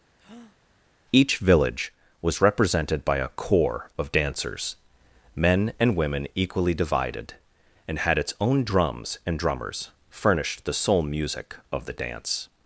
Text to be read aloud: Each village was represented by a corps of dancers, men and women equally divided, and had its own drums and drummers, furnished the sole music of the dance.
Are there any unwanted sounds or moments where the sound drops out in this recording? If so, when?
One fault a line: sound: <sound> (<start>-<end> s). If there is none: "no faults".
sound: breath (0.2-0.6 s)